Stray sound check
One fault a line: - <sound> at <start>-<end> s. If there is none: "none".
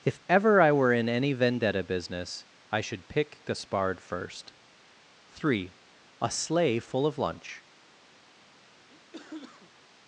- cough at 8.9-9.9 s